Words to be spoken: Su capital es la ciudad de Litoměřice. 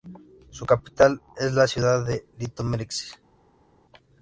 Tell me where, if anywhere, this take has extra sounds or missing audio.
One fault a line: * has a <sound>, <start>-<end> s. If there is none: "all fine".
all fine